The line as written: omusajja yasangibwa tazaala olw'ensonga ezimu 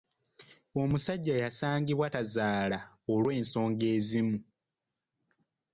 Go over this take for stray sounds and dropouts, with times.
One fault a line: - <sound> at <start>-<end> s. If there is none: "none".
none